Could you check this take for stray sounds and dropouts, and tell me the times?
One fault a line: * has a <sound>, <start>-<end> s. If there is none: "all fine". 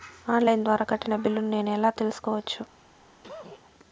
* has a cough, 3.2-3.6 s